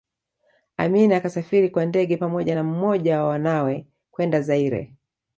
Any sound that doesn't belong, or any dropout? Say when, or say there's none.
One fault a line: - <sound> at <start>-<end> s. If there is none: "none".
none